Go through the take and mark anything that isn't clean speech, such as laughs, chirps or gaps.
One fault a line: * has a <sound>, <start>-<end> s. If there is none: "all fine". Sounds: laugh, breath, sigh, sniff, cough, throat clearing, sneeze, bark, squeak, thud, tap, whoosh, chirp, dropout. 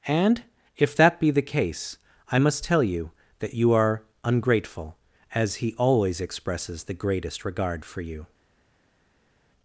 all fine